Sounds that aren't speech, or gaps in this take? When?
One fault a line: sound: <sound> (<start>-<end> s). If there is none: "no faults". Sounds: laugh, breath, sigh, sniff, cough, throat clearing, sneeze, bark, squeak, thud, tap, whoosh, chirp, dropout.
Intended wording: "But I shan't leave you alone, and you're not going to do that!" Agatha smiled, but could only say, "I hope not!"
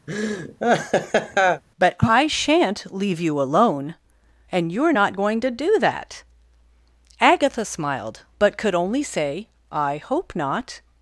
sound: laugh (0.1-1.6 s)